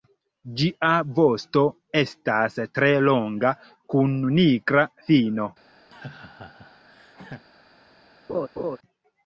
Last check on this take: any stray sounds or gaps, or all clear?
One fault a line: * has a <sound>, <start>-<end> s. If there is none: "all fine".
* has a laugh, 5.9-7.5 s
* has a laugh, 8.3-8.8 s